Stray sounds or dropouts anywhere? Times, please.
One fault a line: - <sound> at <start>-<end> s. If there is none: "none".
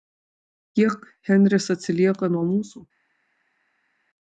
none